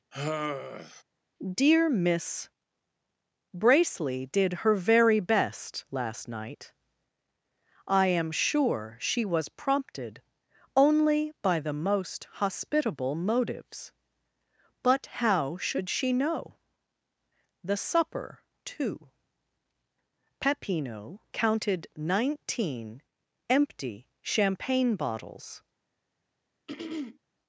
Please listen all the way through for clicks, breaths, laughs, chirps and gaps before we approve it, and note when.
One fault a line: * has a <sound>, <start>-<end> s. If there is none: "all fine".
* has a sigh, 0.1-1.0 s
* has a throat clearing, 26.7-27.2 s